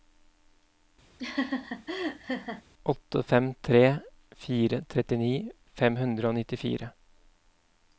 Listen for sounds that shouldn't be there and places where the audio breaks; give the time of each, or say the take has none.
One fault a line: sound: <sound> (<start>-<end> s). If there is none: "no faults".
sound: laugh (1.2-2.6 s)